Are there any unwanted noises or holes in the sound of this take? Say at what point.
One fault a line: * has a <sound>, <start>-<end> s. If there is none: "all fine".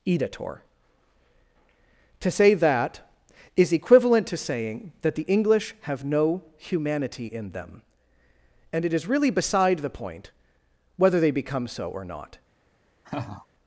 * has a laugh, 13.0-13.5 s